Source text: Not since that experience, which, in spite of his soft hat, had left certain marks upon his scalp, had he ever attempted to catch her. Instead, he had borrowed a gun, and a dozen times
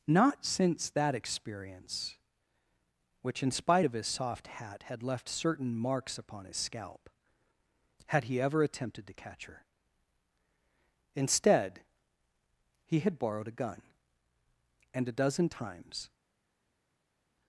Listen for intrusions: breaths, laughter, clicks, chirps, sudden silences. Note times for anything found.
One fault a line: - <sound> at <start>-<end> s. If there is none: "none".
none